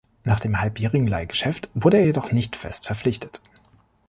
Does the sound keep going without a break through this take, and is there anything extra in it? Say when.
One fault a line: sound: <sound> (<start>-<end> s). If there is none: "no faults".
no faults